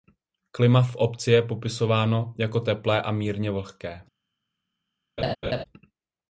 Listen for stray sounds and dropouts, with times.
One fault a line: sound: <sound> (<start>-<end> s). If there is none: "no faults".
sound: laugh (5.2-5.6 s)